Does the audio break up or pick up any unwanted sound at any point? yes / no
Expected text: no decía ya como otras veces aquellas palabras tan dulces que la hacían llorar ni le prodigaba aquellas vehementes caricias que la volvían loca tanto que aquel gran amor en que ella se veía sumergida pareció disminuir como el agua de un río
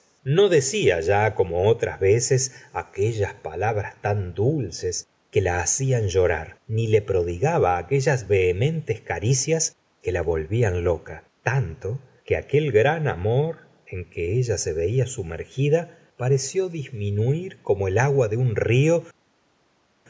no